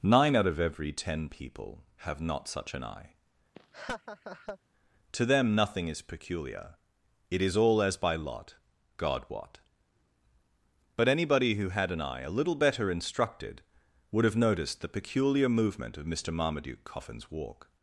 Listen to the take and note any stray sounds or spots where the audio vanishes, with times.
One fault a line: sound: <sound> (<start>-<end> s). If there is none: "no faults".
sound: laugh (3.5-4.6 s)